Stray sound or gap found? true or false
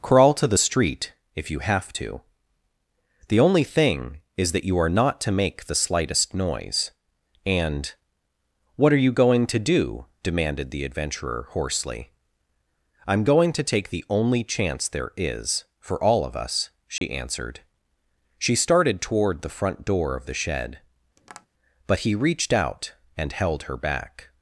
true